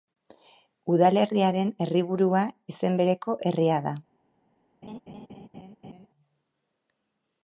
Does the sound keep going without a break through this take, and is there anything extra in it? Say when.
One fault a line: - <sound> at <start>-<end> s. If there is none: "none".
- laugh at 4.8-6.1 s